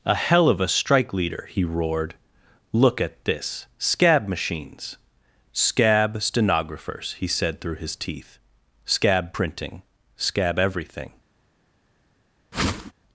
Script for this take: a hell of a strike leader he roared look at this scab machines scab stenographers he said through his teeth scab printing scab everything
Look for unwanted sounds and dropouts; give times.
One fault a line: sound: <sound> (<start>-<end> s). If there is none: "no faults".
sound: whoosh (12.5-12.9 s)